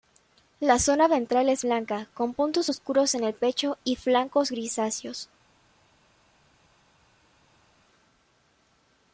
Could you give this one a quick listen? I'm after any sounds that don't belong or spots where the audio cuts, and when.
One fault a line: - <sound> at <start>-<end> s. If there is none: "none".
none